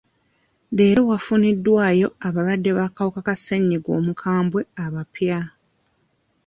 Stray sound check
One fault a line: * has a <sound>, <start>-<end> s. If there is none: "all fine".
all fine